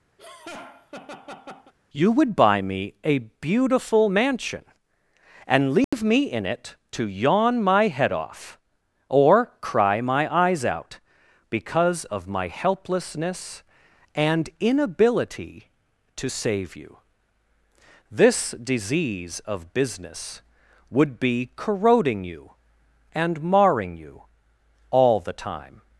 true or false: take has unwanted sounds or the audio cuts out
true